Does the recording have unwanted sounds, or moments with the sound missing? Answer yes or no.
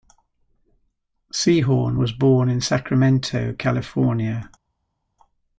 no